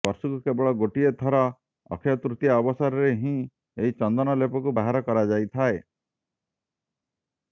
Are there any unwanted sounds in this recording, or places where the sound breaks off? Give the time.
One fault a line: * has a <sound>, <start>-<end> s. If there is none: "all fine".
all fine